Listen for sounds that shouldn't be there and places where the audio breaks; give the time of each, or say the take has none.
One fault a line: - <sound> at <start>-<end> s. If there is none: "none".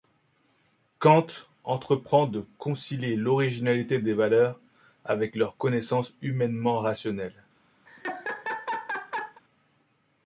- laugh at 7.9-9.4 s